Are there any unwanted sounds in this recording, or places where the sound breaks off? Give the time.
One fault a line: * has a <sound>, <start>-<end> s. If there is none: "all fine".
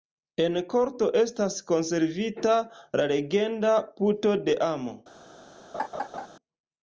* has a laugh, 5.7-6.3 s